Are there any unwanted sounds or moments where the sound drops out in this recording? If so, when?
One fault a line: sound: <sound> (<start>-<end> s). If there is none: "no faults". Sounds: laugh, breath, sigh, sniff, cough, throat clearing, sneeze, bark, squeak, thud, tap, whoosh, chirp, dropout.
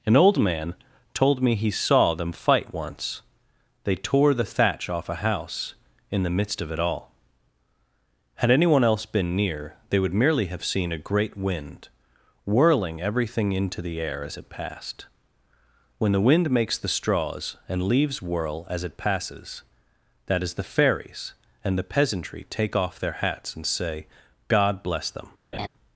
sound: laugh (25.5-25.7 s)